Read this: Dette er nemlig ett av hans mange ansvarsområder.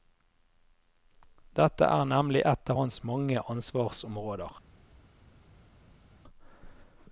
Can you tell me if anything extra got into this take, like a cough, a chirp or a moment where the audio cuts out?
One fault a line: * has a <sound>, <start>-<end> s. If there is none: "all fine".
all fine